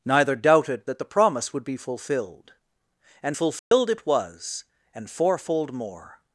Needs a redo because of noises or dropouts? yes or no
yes